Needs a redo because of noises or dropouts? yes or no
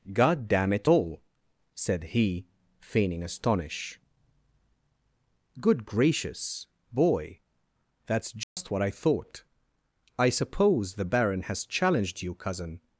yes